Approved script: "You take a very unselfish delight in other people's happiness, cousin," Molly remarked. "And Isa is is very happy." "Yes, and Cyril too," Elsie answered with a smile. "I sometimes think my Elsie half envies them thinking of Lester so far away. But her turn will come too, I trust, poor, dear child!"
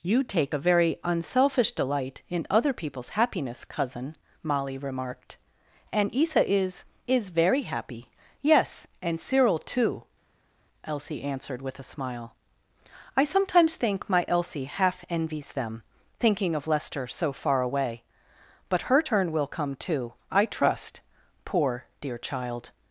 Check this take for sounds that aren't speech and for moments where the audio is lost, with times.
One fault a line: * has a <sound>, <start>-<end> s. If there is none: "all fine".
all fine